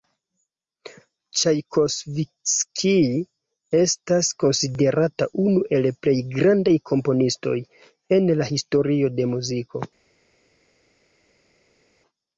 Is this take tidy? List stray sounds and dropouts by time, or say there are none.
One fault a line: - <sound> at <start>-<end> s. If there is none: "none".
none